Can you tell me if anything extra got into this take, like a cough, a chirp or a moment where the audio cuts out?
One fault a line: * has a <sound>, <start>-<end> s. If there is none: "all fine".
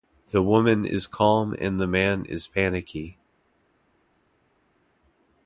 all fine